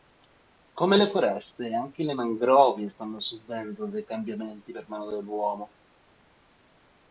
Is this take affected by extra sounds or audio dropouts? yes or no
no